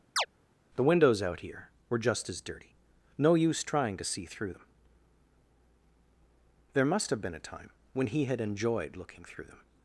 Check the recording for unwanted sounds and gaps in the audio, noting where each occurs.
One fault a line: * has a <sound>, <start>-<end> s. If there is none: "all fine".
* has a chirp, 0.2-0.3 s